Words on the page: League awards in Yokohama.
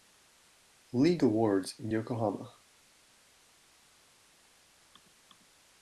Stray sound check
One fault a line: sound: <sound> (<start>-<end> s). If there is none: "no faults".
no faults